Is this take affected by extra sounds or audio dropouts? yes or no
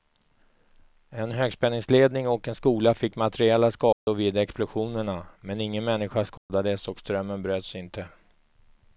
yes